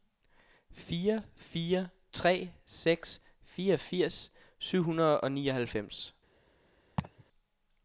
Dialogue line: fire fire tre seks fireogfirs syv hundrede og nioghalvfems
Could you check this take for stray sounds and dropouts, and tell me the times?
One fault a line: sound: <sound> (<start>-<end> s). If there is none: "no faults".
sound: laugh (7.0-7.2 s)